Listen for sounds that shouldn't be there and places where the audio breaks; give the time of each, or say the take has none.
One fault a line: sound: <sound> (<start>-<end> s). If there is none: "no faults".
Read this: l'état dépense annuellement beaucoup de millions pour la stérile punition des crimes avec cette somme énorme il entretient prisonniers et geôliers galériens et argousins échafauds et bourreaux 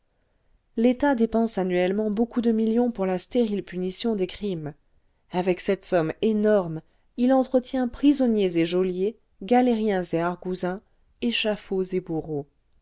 no faults